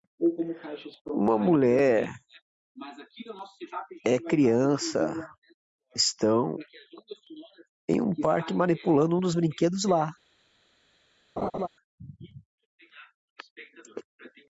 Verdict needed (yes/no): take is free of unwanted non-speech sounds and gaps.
no